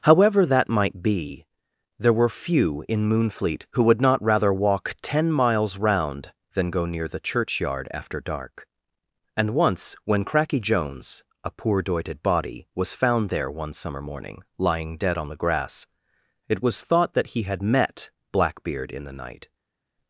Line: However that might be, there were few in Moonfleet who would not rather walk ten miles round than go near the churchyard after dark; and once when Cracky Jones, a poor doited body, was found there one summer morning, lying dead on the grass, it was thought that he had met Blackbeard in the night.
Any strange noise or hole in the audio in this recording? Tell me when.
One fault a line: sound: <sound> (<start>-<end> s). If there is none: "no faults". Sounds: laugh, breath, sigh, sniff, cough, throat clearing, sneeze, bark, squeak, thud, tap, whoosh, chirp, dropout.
no faults